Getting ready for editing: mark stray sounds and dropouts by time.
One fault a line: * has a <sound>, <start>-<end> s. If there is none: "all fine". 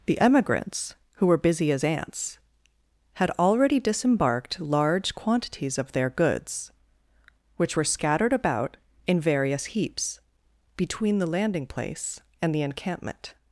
all fine